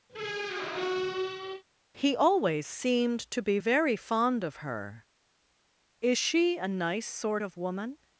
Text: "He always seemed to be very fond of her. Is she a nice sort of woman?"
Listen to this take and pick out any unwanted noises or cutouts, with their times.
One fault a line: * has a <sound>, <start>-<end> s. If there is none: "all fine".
* has a squeak, 0.1-1.6 s